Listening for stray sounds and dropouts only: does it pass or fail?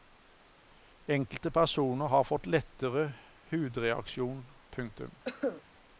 fail